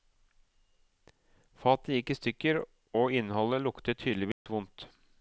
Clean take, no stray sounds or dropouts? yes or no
no